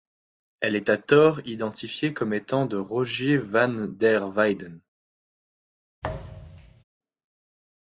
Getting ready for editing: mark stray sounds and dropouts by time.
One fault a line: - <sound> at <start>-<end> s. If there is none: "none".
- thud at 6.0-6.8 s